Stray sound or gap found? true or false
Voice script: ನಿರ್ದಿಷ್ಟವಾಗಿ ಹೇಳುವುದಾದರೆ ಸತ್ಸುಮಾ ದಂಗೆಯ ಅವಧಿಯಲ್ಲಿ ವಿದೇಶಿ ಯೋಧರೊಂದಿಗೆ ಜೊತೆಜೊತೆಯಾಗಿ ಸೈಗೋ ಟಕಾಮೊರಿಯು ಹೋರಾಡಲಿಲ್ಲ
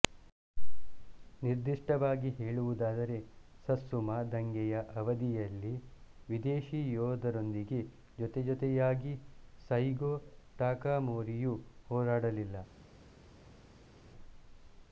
false